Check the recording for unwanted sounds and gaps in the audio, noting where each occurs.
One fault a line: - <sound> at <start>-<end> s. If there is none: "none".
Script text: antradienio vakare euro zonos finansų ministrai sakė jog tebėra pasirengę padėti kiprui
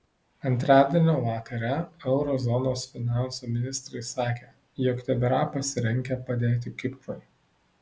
none